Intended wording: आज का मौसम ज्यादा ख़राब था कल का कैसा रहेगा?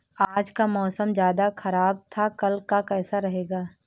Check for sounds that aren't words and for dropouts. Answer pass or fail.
pass